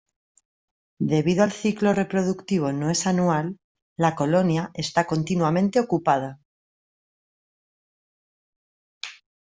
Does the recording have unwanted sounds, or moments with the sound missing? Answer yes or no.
no